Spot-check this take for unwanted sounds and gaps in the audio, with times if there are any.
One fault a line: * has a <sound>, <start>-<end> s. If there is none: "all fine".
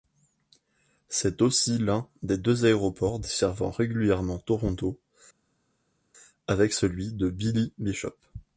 all fine